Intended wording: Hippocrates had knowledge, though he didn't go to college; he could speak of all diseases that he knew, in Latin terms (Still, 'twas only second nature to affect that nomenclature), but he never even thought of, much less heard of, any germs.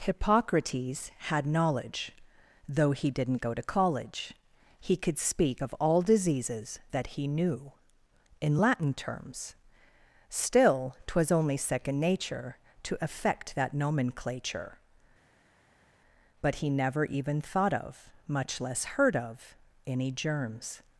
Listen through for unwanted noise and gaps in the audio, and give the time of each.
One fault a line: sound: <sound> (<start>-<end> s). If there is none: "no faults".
no faults